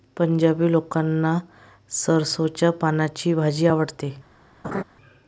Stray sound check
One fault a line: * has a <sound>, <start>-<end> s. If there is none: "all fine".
* has a laugh, 4.6-4.8 s